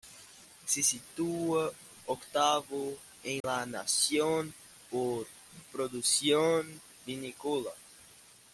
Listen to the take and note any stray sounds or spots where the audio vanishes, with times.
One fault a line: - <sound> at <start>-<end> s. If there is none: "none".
- dropout at 3.4-3.4 s